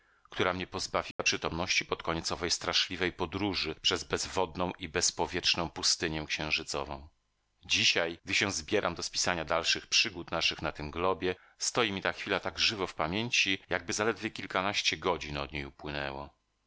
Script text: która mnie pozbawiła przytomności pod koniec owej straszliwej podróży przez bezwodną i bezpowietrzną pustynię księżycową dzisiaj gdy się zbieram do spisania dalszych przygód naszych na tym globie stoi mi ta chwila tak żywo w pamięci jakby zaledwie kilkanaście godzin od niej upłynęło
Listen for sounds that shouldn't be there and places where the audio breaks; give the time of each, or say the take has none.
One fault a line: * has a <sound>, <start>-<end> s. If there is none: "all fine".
* has a dropout, 1.1-1.2 s